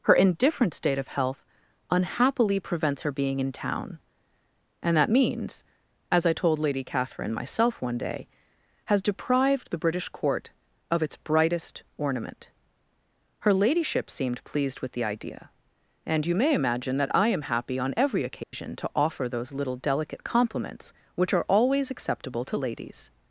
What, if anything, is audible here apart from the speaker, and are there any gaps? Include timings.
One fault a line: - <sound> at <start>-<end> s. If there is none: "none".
- dropout at 18.4-18.5 s